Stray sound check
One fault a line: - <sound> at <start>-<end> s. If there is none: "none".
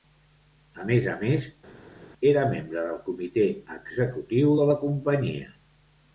none